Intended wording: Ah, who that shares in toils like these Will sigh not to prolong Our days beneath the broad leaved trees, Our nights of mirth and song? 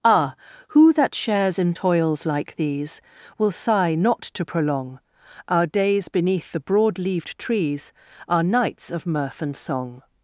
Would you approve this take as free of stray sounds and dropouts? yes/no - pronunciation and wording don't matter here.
yes